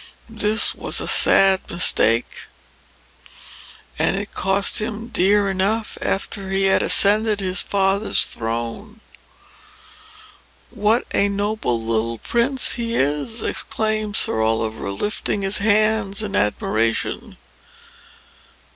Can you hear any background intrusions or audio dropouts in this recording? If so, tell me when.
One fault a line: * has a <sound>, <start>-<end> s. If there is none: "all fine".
all fine